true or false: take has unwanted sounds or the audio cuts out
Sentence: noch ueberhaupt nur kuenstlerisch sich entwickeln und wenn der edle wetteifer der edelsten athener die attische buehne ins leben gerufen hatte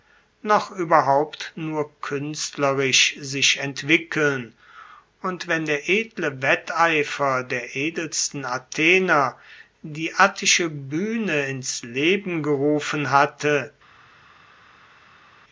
false